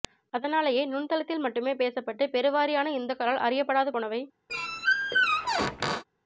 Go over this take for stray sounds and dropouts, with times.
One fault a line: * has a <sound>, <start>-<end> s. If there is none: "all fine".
* has a squeak, 4.5-6.0 s